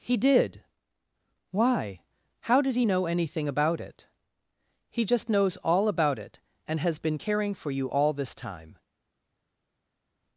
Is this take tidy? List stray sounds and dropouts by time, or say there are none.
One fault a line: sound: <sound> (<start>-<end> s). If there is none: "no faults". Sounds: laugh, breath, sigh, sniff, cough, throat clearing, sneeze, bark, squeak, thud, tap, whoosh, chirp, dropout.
no faults